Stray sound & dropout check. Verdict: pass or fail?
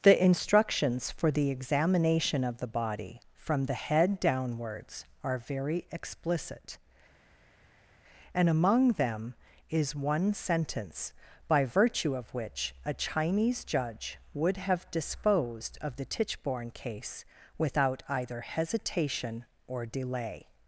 pass